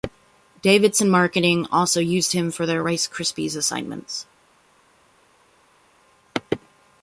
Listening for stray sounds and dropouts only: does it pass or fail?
pass